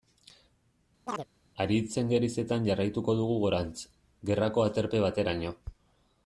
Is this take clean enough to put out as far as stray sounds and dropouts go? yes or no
no